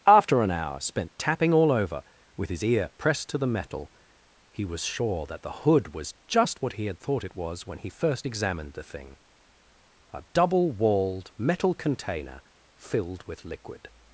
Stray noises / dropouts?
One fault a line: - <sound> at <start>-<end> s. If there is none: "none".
none